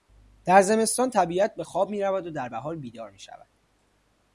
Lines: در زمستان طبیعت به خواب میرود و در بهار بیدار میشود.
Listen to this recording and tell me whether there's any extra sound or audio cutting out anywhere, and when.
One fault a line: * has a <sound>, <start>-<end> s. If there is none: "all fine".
all fine